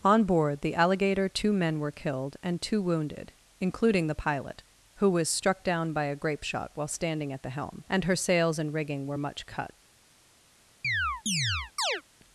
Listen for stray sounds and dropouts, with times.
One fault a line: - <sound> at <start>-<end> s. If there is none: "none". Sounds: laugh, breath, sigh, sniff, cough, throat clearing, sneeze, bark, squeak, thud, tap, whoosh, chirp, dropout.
- chirp at 10.8-12.0 s